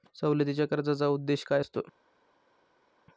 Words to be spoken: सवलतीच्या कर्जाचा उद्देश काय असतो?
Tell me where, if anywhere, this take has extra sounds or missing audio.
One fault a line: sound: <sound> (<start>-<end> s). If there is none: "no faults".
no faults